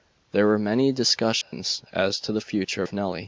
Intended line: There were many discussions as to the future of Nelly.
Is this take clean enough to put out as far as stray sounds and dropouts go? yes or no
no